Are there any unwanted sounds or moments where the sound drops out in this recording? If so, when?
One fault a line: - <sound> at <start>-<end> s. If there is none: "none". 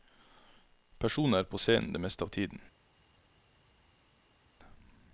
none